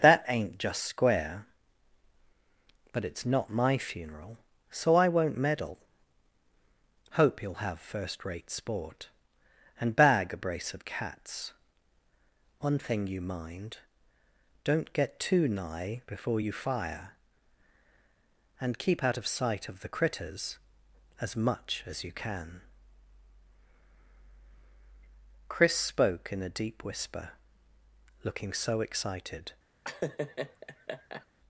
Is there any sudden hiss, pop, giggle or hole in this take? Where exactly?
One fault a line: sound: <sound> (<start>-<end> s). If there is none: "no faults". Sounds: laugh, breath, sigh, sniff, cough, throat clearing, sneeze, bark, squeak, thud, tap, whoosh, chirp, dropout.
sound: laugh (29.8-31.3 s)